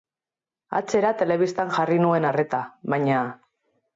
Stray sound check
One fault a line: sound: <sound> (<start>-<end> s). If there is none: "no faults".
no faults